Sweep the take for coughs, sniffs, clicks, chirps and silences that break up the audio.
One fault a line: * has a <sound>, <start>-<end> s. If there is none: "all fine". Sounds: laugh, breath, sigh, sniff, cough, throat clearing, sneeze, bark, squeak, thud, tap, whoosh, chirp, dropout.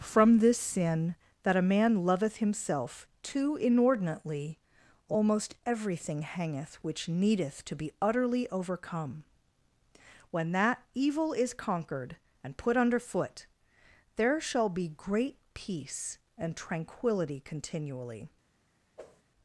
* has a whoosh, 19.0-19.2 s